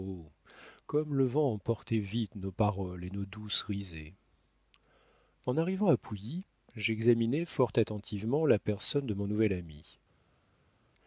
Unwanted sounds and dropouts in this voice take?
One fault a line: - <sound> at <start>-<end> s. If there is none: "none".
none